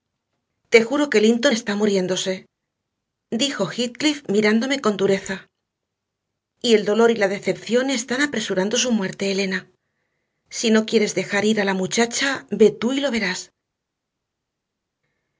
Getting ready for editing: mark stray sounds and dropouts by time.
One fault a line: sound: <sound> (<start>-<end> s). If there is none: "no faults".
no faults